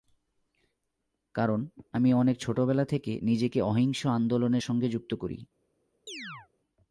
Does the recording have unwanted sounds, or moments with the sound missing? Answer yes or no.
yes